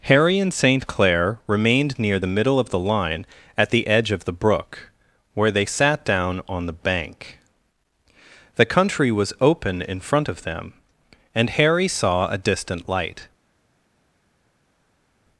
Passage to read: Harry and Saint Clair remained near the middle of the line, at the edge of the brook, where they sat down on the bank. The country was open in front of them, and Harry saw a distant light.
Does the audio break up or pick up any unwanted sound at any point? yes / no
no